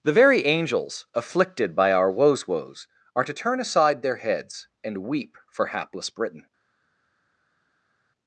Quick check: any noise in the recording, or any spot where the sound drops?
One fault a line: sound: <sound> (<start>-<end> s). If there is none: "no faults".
no faults